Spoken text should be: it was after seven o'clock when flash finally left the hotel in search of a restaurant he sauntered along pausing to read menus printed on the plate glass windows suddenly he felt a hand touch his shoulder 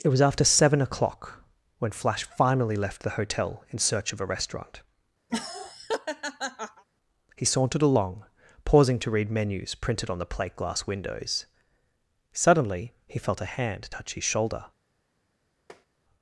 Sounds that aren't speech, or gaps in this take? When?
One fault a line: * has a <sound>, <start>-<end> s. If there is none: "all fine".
* has a laugh, 5.3-6.8 s
* has a tap, 15.7-15.9 s